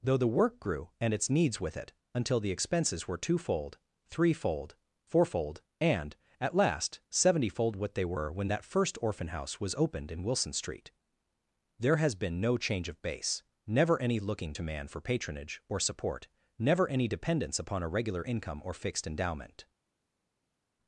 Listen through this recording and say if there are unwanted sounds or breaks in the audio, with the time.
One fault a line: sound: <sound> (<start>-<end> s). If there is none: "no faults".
no faults